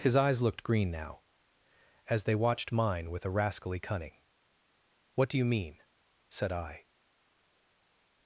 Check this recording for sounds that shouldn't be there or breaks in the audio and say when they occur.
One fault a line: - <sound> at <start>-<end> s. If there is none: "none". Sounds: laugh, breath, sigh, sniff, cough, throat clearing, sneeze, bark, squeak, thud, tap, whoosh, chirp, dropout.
none